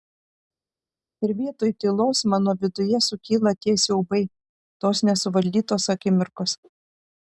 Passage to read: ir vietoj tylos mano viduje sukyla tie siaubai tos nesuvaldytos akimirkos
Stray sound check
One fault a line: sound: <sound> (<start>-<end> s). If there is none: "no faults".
no faults